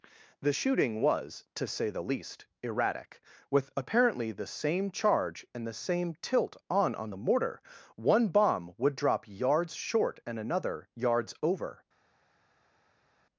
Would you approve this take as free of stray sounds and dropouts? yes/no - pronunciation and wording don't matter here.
yes